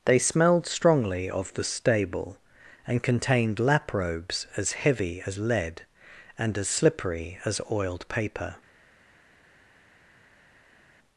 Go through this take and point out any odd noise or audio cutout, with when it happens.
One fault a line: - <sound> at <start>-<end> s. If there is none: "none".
none